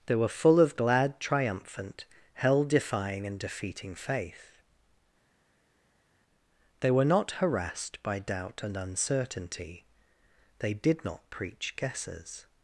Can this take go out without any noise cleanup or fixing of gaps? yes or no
yes